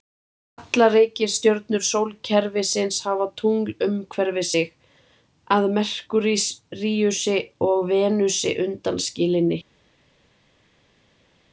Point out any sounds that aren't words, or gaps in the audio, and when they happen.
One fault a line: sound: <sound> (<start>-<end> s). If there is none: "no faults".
no faults